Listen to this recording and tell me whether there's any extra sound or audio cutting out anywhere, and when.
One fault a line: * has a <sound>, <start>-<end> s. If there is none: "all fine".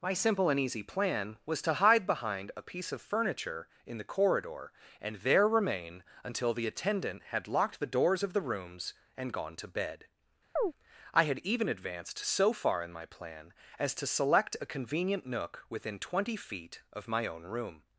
* has a chirp, 10.6-10.7 s